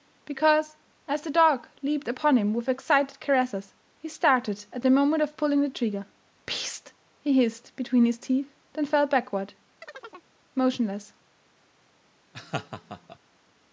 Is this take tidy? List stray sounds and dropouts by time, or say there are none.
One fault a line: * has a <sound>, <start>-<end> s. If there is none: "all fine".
* has a chirp, 9.8-10.3 s
* has a laugh, 12.3-13.2 s